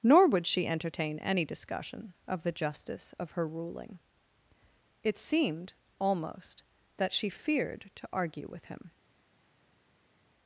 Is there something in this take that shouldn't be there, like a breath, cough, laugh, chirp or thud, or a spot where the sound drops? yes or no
no